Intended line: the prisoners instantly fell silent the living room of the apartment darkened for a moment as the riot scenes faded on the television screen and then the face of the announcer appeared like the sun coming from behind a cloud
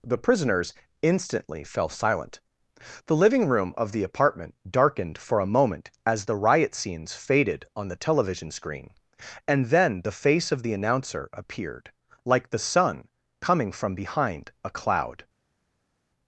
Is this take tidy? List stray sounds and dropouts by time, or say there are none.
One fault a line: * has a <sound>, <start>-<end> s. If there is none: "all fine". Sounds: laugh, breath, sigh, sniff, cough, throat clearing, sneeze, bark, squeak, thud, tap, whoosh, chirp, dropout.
all fine